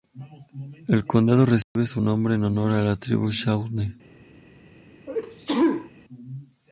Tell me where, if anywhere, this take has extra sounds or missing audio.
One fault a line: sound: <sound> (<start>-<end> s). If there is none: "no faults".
sound: dropout (1.6-1.8 s)
sound: sneeze (5.1-5.9 s)